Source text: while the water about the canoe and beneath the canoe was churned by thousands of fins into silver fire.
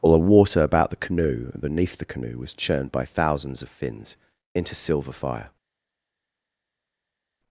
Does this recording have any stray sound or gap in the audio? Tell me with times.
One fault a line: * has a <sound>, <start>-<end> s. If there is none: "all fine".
all fine